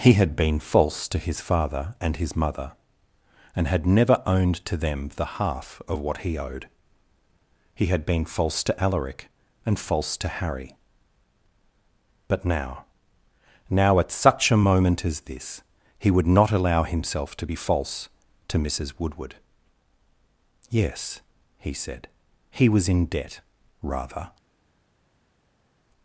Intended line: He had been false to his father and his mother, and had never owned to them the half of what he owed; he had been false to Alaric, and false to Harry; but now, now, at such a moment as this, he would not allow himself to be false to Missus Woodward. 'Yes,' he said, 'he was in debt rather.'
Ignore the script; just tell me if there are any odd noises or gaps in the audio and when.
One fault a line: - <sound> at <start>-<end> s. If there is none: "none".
none